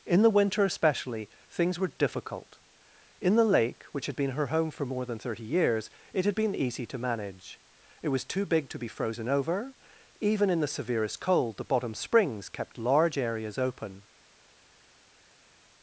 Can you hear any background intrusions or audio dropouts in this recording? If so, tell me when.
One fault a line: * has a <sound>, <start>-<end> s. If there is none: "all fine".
all fine